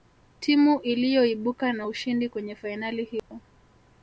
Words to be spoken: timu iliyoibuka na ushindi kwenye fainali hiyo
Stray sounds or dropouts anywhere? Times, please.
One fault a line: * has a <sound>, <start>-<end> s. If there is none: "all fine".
* has a dropout, 3.2-3.3 s